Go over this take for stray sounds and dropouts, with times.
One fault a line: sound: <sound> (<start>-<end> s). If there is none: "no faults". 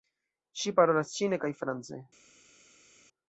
no faults